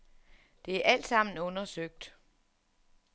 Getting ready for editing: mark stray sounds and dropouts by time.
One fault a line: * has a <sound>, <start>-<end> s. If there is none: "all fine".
all fine